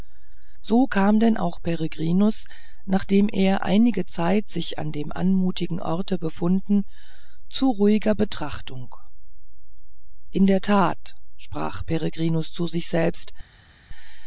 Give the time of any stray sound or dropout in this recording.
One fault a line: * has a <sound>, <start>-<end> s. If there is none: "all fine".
all fine